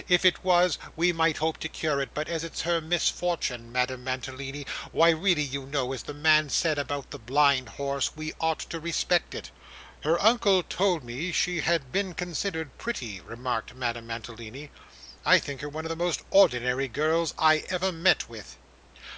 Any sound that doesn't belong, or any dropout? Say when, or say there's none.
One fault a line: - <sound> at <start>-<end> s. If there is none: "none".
none